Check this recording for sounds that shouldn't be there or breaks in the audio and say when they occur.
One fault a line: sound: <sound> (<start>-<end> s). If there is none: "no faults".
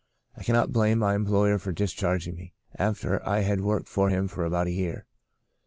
no faults